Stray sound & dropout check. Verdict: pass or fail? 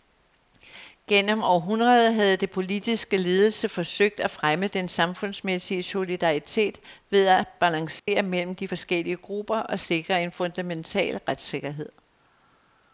fail